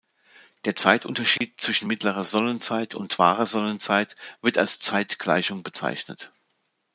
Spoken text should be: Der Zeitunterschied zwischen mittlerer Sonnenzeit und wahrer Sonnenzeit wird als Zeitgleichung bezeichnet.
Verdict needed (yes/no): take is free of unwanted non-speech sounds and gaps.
no